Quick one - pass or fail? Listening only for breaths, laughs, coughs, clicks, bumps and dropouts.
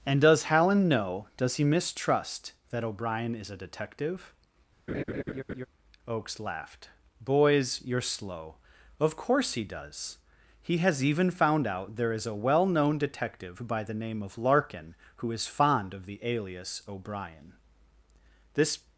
fail